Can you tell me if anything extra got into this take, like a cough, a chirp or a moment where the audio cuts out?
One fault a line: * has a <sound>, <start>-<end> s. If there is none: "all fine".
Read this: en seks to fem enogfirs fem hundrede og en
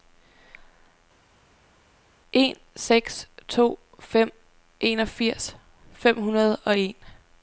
all fine